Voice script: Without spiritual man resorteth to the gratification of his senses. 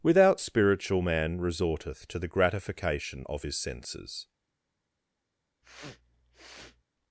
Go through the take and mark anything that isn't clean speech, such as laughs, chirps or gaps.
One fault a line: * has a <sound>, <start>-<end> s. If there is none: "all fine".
* has a sniff, 5.6-6.8 s